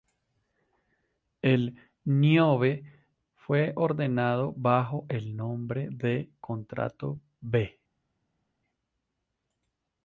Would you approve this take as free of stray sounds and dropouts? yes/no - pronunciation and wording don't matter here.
yes